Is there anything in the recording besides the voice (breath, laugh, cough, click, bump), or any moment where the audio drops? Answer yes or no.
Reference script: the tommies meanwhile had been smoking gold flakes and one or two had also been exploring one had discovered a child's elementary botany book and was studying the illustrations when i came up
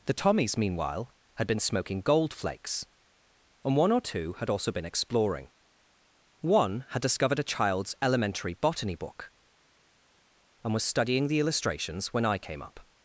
no